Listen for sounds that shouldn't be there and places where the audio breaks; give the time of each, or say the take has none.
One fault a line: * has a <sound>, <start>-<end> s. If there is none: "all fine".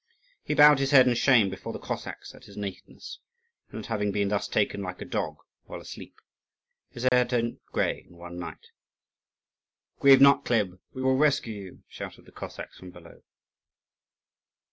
* has a dropout, 7.1-7.1 s